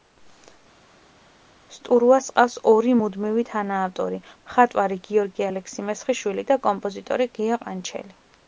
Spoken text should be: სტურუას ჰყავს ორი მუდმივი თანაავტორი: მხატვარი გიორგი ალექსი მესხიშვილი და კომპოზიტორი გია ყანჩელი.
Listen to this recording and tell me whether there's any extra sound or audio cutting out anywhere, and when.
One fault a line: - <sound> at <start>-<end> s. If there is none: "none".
none